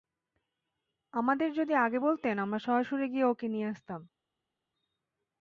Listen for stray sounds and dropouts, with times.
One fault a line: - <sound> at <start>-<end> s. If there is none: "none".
none